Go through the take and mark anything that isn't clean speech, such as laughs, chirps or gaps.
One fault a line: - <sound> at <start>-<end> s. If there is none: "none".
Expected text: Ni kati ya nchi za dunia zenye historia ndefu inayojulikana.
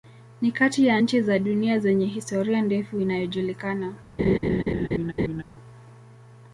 - laugh at 4.2-5.4 s